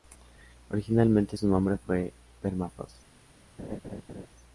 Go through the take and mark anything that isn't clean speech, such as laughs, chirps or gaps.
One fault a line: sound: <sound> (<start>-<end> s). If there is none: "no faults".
sound: laugh (3.6-4.3 s)